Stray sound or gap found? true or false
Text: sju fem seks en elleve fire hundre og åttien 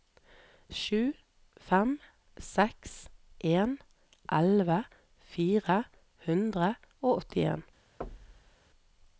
true